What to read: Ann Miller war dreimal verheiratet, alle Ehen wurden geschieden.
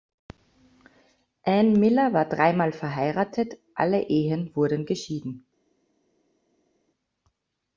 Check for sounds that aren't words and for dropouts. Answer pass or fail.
pass